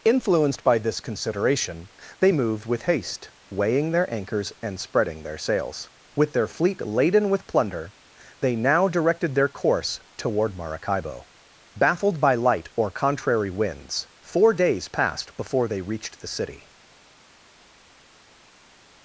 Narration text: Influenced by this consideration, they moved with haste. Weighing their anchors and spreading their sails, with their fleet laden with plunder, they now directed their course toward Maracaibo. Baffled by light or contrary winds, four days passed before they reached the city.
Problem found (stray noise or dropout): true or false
false